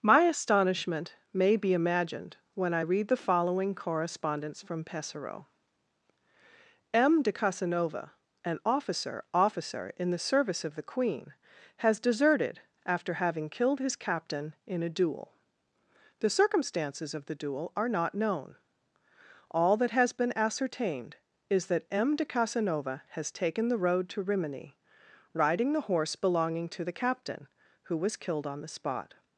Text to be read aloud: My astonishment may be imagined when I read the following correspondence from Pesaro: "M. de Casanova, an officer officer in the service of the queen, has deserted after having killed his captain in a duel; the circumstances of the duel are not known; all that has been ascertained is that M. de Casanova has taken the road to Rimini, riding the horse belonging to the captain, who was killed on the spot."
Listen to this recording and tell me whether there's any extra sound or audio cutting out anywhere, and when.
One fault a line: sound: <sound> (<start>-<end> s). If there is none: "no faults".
no faults